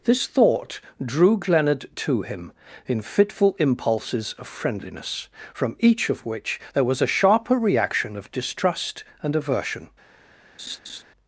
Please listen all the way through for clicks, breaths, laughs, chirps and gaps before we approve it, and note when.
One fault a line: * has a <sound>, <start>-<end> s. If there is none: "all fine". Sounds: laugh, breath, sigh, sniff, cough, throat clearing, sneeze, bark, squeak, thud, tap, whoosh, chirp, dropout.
* has a laugh, 10.6-11.0 s